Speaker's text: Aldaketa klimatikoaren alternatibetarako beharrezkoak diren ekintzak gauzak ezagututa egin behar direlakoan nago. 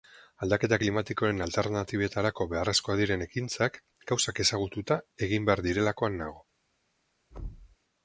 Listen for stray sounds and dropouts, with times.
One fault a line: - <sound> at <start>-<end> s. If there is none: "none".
- thud at 7.3-7.8 s